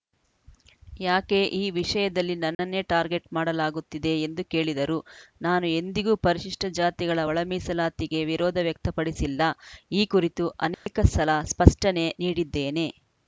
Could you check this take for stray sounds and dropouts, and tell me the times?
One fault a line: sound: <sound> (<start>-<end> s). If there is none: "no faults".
sound: dropout (2.5-2.6 s)
sound: dropout (10.7-10.9 s)